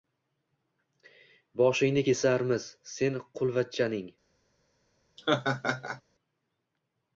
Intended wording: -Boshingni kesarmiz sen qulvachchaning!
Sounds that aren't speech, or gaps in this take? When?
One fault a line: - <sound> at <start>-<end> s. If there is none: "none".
- laugh at 5.2-6.0 s